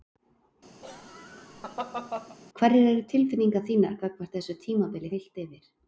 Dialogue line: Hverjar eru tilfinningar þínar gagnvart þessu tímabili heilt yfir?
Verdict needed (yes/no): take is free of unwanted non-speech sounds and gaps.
no